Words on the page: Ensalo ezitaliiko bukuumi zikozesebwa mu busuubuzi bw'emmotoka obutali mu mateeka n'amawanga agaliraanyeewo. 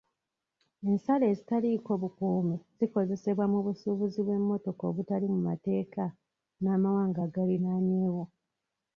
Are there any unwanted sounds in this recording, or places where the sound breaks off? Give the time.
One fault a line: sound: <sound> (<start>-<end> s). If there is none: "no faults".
no faults